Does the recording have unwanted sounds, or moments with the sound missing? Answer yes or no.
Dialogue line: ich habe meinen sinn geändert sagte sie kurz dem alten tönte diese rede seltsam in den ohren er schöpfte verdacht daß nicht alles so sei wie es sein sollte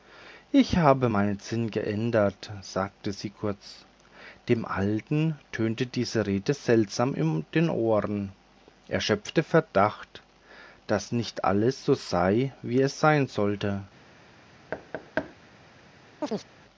yes